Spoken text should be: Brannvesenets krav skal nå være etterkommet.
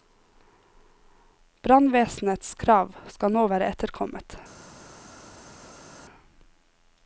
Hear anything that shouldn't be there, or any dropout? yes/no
no